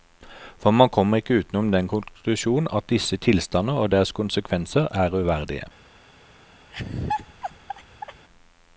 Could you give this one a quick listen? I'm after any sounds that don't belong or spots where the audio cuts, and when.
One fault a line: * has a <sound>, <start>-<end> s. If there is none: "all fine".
* has a laugh, 6.7-8.2 s